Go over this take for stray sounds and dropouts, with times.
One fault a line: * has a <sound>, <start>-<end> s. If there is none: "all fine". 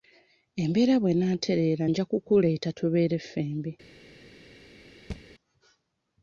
* has a thud, 5.1-5.2 s